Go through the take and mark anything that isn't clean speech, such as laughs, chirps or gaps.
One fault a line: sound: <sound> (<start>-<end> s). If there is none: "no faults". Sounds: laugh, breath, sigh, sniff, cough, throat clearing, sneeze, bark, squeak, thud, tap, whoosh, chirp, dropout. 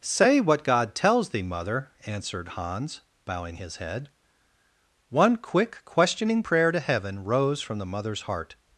no faults